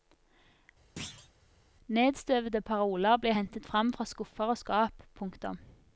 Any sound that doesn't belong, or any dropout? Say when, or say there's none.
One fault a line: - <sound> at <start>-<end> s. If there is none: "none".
- thud at 1.0-1.3 s